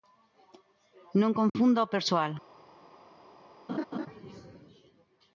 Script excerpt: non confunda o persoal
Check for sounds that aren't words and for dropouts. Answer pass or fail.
fail